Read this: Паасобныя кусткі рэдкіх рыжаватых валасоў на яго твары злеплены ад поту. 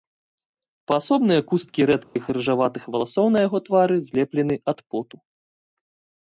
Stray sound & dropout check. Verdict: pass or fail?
fail